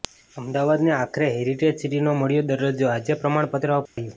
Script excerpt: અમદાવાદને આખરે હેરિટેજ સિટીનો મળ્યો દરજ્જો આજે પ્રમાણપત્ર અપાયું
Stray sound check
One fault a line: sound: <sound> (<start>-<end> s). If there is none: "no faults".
sound: dropout (3.9-4.0 s)